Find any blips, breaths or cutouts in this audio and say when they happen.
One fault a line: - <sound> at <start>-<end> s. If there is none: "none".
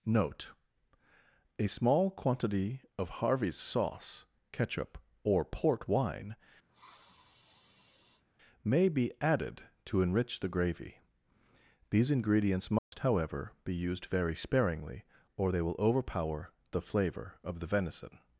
- sniff at 6.7-8.2 s
- dropout at 12.8-12.9 s